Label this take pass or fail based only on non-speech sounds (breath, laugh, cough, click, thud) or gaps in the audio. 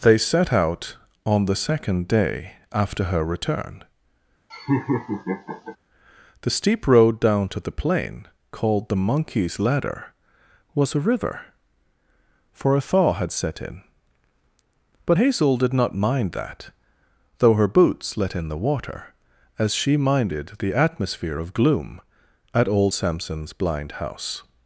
fail